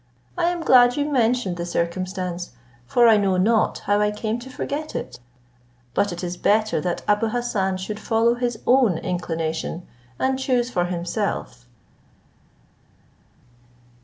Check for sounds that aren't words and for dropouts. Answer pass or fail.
pass